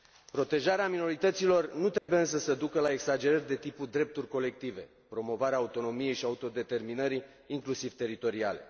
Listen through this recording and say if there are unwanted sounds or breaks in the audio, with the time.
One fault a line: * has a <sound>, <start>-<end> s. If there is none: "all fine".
* has a dropout, 2.0-2.1 s